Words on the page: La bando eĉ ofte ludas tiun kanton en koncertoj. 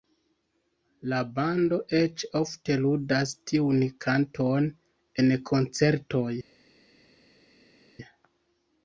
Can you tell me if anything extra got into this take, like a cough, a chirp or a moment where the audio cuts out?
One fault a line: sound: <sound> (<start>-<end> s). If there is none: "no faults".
no faults